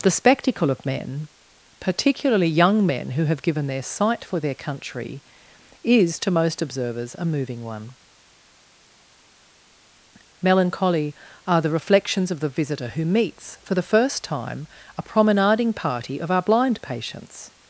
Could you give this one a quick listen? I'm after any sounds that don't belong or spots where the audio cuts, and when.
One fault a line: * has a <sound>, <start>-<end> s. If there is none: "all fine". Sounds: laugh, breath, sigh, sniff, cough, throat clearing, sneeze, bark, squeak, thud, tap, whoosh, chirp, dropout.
all fine